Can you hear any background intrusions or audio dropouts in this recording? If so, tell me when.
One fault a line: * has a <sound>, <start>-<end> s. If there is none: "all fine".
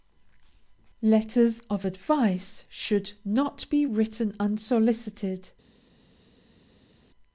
all fine